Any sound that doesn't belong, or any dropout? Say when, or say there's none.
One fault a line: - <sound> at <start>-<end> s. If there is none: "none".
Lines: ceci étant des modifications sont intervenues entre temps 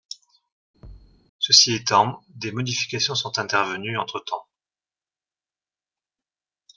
- thud at 0.8-1.2 s